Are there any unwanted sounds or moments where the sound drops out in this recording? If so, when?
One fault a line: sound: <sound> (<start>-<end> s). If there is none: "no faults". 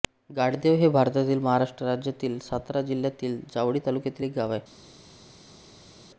no faults